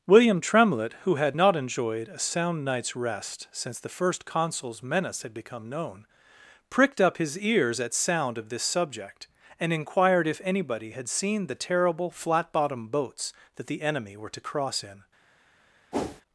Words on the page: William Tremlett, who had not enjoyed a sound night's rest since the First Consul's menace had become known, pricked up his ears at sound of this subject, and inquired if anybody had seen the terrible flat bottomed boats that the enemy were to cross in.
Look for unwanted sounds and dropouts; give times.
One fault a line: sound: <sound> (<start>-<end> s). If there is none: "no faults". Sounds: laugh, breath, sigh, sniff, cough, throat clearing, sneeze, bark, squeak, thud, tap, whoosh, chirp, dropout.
sound: whoosh (15.9-16.2 s)